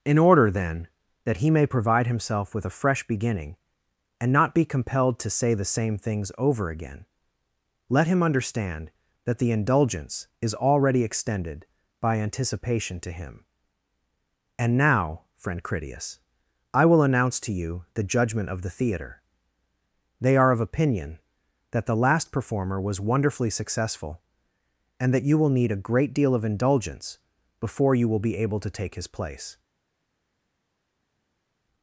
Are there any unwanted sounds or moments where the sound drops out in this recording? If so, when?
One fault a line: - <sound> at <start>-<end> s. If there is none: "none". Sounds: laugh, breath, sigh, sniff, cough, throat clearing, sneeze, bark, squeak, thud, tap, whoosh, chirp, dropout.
none